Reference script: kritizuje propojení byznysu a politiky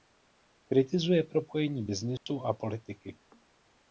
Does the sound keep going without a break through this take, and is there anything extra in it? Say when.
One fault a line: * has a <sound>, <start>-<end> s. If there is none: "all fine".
* has a dropout, 2.2-2.3 s